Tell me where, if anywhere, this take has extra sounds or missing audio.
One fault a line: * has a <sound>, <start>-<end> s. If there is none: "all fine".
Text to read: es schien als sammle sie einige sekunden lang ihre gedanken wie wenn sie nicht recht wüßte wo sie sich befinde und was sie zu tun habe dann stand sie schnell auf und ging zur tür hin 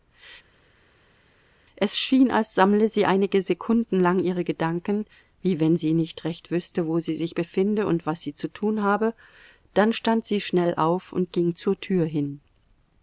all fine